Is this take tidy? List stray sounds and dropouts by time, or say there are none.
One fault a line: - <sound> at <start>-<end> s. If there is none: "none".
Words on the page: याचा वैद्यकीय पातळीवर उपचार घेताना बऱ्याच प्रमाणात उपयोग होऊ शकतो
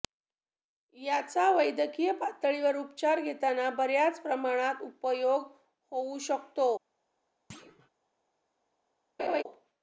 - thud at 7.5-7.9 s
- laugh at 9.2-9.4 s